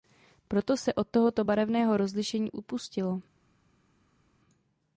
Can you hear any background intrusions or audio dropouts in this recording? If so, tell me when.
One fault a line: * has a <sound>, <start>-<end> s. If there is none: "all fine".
all fine